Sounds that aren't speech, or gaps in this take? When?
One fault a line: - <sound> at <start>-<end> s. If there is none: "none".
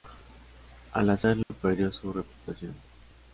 - dropout at 1.4-1.5 s